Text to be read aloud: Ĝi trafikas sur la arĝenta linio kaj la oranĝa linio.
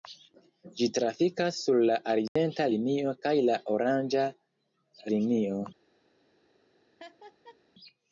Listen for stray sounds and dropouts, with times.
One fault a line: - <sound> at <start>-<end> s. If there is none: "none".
- dropout at 2.3-2.4 s
- laugh at 7.0-7.6 s